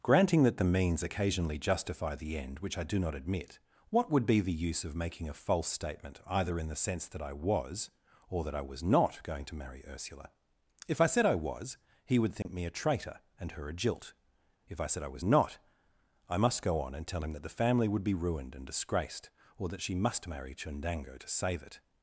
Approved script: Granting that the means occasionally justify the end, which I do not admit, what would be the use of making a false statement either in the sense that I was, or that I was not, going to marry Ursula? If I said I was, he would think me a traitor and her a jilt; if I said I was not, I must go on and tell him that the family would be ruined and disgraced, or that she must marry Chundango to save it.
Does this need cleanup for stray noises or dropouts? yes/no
yes